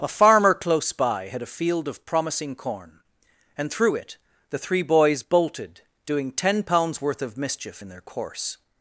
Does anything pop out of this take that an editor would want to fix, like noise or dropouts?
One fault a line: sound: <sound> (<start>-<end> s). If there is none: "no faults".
no faults